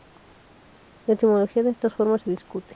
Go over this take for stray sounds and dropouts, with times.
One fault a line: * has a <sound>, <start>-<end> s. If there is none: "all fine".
all fine